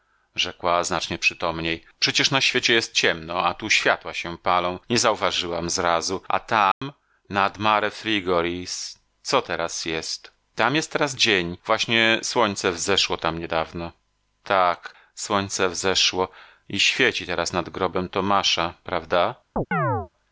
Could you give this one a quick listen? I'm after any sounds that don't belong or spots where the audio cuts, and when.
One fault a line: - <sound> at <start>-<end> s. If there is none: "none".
- dropout at 6.7-6.8 s
- chirp at 19.6-20.1 s